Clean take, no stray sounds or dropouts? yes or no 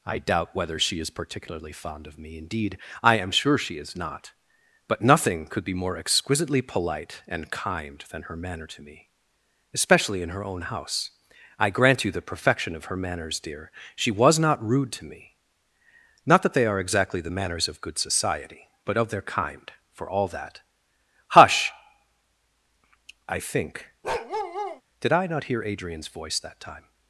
no